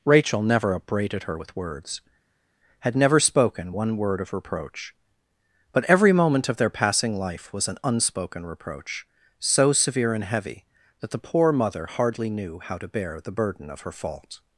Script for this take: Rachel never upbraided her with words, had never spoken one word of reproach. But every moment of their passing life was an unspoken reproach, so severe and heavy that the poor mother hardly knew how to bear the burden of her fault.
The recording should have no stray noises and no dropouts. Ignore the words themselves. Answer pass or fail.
pass